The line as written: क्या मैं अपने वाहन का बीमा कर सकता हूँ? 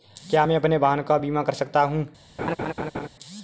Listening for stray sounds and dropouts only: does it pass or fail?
fail